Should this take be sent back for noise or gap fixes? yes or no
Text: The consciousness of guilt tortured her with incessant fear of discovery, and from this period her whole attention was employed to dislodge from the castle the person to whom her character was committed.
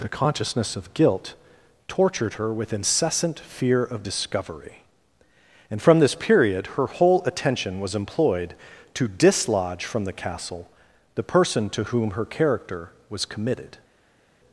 no